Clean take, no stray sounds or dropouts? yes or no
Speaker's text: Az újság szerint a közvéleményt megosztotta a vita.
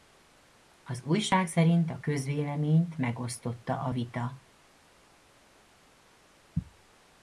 yes